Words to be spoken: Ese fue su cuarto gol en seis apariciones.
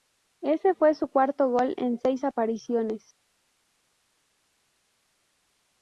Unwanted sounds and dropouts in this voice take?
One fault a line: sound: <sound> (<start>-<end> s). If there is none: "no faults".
no faults